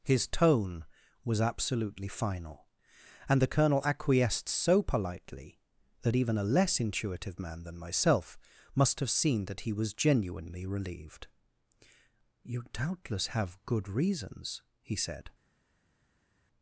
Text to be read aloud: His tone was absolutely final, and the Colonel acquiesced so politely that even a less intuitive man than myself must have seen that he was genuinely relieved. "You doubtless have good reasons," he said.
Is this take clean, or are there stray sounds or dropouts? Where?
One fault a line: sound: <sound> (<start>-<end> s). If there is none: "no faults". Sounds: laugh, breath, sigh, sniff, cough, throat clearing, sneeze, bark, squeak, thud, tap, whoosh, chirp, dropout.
no faults